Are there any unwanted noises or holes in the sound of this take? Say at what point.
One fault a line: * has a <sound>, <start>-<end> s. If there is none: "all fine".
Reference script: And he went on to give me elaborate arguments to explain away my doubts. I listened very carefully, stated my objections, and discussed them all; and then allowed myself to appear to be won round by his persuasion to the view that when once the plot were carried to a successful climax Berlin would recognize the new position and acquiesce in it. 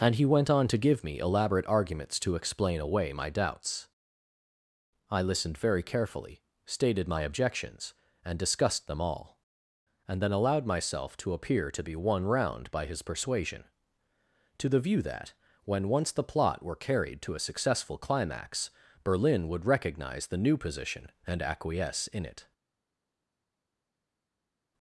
all fine